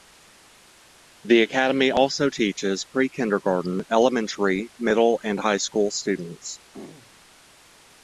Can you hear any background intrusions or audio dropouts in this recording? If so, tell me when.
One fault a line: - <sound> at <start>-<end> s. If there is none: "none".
- throat clearing at 6.7-7.1 s